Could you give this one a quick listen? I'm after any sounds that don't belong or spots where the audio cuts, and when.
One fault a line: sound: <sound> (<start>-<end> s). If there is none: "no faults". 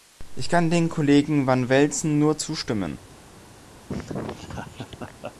sound: laugh (3.9-5.3 s)